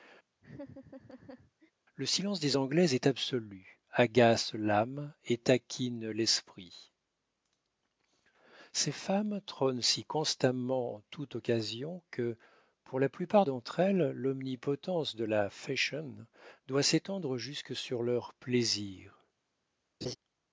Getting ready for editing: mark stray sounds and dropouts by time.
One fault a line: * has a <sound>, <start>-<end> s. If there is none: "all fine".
* has a laugh, 0.4-1.7 s
* has a laugh, 20.0-20.2 s